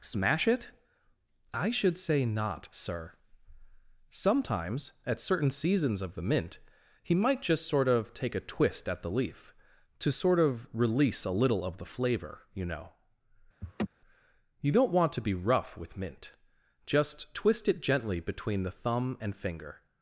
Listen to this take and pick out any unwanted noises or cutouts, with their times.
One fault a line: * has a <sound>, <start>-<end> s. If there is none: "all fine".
* has a laugh, 13.6-13.9 s